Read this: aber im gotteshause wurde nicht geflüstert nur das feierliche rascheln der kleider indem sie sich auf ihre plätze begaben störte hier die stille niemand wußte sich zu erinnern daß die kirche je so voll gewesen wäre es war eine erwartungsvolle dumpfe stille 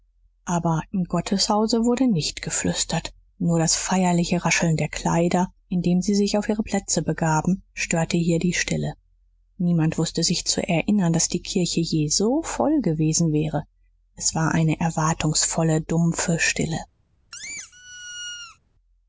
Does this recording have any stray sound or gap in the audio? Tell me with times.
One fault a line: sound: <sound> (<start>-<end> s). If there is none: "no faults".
sound: squeak (17.3-18.6 s)